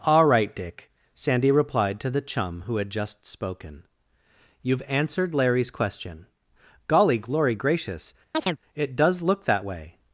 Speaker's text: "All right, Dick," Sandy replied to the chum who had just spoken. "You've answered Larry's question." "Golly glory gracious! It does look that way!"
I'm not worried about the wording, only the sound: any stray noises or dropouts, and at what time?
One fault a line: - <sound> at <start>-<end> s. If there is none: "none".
- chirp at 8.3-8.6 s